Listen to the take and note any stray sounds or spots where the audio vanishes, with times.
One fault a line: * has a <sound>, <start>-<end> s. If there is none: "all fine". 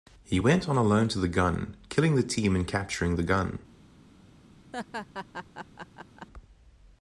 * has a laugh, 4.7-6.3 s